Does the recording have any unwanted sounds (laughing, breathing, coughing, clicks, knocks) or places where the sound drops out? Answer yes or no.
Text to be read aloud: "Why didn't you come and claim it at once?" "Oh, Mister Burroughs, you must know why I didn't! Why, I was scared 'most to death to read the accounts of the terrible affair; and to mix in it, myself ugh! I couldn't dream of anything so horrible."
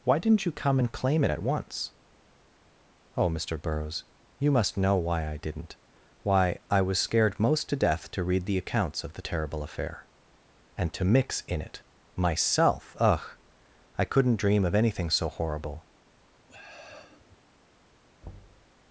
yes